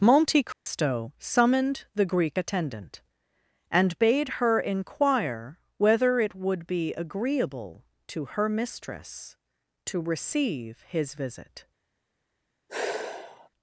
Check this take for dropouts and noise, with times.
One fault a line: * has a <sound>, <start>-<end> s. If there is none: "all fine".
* has a dropout, 0.5-0.7 s
* has a sigh, 12.7-13.5 s